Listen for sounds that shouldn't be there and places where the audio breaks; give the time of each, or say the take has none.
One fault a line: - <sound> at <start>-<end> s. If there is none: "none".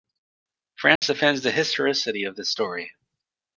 - dropout at 1.0-1.0 s